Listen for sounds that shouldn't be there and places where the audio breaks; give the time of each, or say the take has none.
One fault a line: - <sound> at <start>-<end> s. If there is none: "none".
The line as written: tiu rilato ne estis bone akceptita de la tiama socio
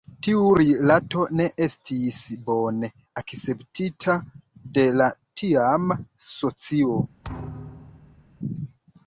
- thud at 7.2-8.3 s